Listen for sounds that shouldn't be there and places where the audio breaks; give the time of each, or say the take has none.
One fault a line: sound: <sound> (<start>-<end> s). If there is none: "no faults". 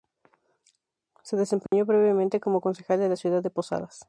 sound: dropout (1.7-1.7 s)